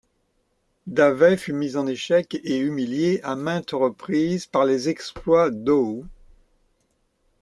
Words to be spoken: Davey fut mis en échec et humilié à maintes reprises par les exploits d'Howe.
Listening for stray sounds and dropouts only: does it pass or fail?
pass